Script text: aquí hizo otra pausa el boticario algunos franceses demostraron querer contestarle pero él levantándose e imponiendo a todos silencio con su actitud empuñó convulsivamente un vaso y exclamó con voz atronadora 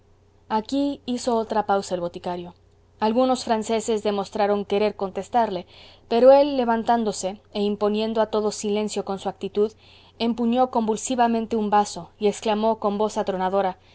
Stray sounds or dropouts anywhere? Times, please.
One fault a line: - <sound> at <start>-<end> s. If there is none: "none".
none